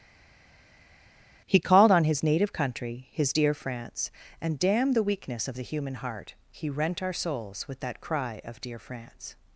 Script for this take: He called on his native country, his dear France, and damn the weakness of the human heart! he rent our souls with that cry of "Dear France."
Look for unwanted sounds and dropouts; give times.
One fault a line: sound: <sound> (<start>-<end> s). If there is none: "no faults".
no faults